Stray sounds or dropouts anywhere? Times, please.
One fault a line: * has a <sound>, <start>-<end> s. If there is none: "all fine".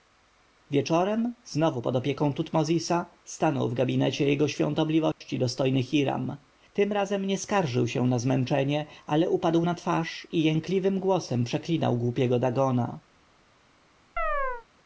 * has a dropout, 5.1-5.2 s
* has a chirp, 14.2-14.7 s